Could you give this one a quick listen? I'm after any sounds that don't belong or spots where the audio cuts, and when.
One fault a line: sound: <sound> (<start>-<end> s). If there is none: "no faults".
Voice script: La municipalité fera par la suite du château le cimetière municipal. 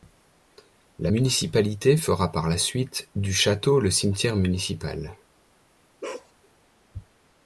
sound: bark (6.0-6.3 s)